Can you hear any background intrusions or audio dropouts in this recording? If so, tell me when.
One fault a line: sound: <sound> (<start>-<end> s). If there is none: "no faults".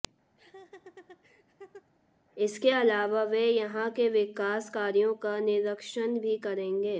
sound: laugh (0.4-1.9 s)